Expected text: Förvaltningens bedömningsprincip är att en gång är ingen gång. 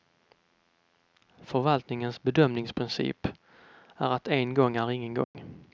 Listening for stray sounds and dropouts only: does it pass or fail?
fail